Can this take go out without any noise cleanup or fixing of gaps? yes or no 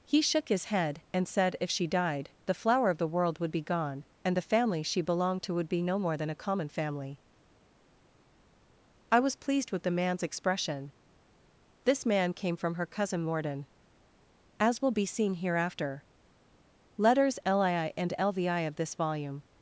yes